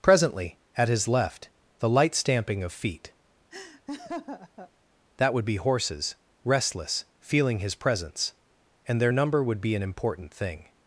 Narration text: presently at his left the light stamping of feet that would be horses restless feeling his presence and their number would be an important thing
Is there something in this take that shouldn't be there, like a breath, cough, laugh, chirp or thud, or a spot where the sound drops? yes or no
yes